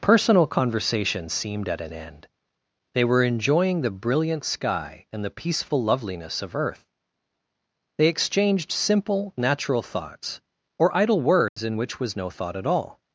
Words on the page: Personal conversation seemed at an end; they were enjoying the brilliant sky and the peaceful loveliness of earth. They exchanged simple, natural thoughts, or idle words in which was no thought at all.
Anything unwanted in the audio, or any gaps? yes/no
yes